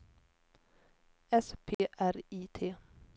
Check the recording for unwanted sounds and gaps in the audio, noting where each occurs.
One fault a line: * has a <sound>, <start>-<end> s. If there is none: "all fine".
* has a dropout, 1.7-1.8 s